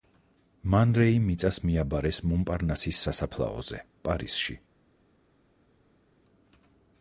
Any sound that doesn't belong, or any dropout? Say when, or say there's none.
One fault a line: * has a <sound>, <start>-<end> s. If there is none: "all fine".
all fine